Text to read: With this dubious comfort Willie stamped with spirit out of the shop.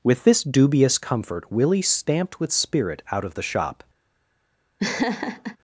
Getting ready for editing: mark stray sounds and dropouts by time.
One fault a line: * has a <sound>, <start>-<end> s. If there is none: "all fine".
* has a laugh, 4.8-5.6 s